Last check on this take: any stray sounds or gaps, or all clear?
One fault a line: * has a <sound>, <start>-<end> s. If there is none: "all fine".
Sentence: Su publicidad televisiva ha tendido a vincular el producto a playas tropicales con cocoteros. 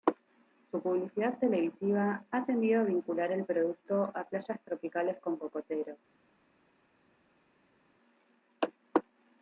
all fine